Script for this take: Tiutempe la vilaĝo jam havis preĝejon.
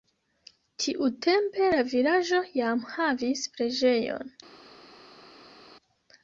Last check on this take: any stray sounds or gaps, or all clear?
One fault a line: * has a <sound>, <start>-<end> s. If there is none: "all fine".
all fine